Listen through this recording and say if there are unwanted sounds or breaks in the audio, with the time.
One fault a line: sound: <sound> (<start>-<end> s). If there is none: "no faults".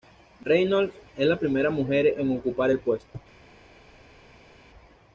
no faults